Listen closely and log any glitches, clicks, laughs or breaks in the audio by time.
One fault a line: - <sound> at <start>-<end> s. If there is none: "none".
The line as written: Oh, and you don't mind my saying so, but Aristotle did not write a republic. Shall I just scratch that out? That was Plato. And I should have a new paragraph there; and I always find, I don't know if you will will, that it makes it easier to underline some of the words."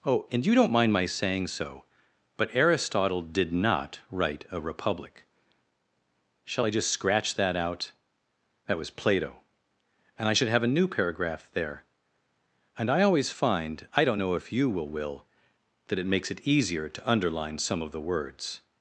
none